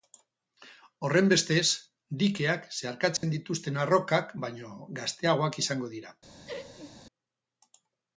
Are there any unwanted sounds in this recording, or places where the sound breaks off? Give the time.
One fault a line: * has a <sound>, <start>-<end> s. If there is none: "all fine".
* has a dropout, 3.2-3.2 s
* has a laugh, 6.5-7.0 s